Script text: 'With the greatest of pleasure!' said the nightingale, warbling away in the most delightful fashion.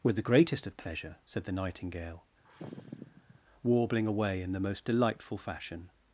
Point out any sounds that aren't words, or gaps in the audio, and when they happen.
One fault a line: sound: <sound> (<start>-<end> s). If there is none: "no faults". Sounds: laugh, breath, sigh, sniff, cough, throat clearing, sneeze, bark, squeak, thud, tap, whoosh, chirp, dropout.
sound: sigh (2.4-3.4 s)